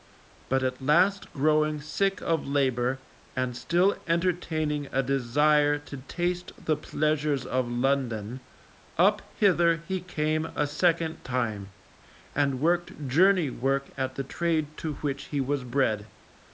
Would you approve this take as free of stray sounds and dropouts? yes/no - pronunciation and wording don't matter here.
yes